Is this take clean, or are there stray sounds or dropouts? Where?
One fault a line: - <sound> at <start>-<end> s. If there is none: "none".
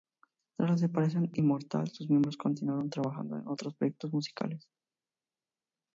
none